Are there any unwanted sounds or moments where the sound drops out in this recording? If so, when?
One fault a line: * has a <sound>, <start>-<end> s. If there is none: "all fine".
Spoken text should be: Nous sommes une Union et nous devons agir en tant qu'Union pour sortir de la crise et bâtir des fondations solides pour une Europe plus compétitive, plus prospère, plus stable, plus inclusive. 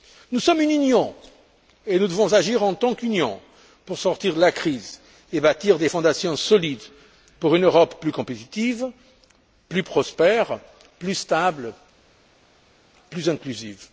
all fine